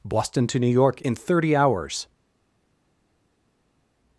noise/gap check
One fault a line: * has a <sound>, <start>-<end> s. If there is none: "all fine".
all fine